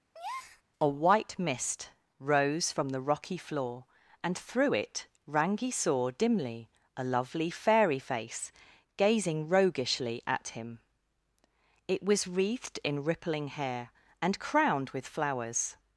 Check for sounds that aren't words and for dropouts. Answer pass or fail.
fail